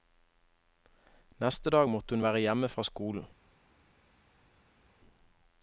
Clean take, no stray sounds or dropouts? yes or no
yes